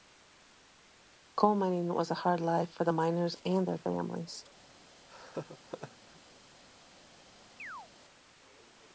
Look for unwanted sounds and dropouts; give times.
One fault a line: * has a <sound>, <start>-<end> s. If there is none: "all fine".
* has a laugh, 5.1-6.2 s
* has a chirp, 7.6-7.9 s